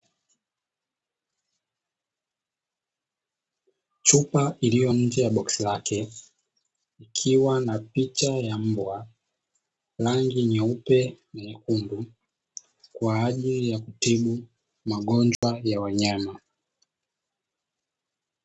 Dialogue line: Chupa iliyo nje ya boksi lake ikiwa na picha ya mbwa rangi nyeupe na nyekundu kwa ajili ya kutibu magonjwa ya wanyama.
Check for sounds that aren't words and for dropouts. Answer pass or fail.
fail